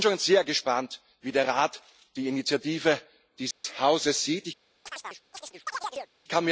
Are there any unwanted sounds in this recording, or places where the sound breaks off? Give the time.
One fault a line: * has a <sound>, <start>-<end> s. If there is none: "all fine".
* has a dropout, 3.5-3.6 s
* has a chirp, 4.9-6.1 s